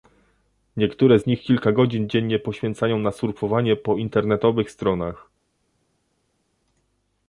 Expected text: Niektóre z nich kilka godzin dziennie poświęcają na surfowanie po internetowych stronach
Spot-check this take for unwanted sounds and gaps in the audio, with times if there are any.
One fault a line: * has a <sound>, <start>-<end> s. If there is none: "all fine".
all fine